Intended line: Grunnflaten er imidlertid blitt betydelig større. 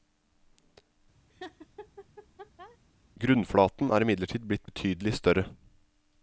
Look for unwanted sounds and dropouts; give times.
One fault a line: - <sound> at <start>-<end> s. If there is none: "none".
- laugh at 1.3-2.8 s